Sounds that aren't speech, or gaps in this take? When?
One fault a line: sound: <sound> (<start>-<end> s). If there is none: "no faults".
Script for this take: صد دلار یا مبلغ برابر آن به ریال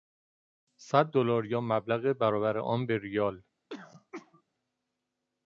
sound: throat clearing (3.7-4.4 s)